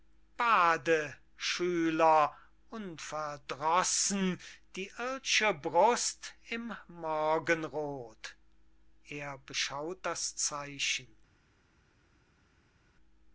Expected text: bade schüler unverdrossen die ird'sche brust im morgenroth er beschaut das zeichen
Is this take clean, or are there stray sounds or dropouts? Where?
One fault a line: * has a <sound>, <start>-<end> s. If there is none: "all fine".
all fine